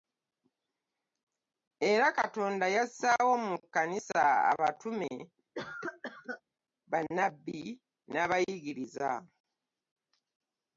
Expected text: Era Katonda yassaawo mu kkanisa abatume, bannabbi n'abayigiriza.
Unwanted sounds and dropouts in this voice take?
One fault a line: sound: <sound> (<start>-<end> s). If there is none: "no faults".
sound: cough (5.5-6.4 s)